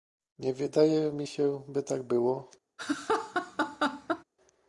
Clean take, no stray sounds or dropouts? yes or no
no